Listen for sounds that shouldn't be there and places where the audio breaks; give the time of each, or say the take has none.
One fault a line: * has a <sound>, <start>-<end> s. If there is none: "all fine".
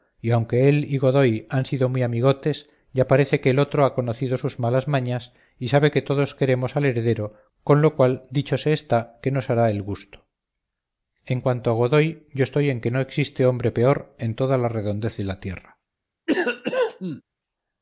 * has a cough, 16.3-17.2 s